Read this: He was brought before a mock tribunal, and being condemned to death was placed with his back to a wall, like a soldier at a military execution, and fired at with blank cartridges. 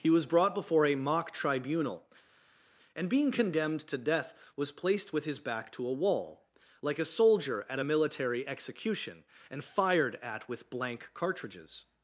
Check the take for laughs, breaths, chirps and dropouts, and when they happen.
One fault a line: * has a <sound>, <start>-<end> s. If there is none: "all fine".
all fine